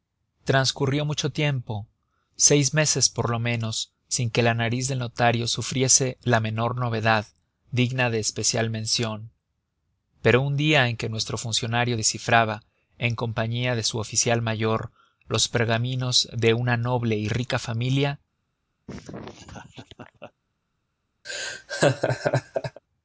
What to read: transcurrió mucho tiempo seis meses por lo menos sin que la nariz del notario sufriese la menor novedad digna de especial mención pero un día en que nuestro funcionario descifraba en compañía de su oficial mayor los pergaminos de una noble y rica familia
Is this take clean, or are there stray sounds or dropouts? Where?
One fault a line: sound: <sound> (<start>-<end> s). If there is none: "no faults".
sound: laugh (18.9-20.3 s)
sound: laugh (21.2-22.8 s)